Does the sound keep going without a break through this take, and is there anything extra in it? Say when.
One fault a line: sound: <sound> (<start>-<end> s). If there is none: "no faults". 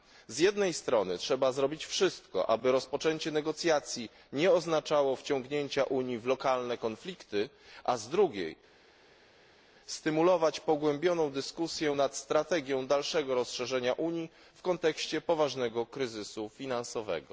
no faults